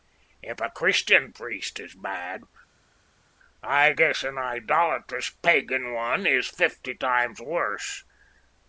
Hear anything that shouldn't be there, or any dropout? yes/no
no